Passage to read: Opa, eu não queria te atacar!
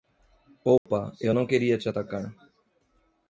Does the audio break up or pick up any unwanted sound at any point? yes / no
yes